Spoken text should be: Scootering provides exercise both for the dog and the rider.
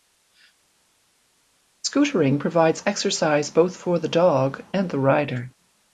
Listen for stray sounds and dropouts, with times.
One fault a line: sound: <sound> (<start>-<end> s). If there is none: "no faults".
no faults